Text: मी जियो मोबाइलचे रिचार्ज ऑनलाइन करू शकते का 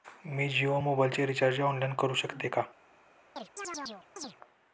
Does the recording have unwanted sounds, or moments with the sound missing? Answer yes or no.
yes